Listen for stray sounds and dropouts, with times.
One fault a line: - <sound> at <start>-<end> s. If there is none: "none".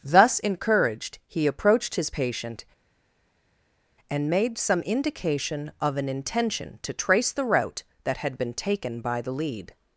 none